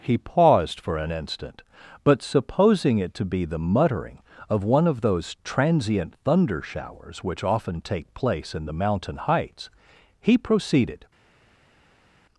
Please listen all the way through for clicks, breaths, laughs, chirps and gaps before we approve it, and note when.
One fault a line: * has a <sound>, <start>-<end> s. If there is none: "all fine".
all fine